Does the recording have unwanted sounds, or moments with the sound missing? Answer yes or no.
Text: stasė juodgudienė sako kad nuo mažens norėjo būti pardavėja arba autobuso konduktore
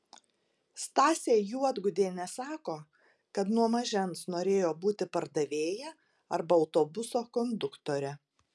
no